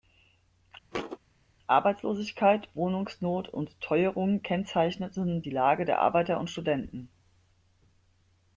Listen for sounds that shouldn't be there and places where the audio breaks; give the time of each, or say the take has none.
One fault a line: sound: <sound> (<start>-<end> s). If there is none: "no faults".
sound: thud (0.9-1.2 s)